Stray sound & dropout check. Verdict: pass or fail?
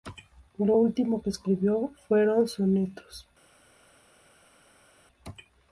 pass